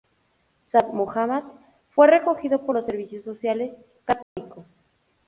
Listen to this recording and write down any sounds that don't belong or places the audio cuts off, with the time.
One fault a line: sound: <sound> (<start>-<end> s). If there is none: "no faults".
sound: dropout (4.2-4.4 s)